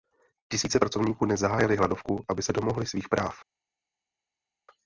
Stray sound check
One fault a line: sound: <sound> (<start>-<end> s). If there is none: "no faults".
no faults